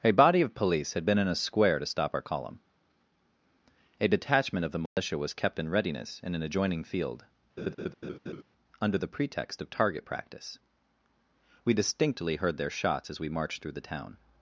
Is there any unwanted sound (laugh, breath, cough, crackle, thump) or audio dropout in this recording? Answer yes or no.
yes